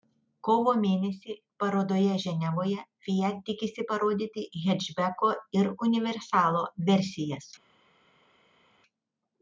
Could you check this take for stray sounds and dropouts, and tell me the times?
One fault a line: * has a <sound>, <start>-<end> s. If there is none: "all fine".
all fine